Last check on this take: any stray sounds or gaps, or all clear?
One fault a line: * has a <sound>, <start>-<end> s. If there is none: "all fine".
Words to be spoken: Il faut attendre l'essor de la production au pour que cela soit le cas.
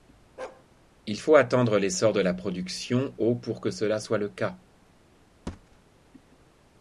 * has a bark, 0.4-0.7 s
* has a thud, 5.5-5.8 s